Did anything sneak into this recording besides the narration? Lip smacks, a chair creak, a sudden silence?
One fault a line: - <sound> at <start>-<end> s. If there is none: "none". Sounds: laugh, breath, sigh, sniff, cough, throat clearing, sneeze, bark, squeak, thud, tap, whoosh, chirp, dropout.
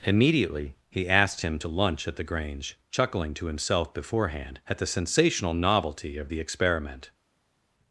none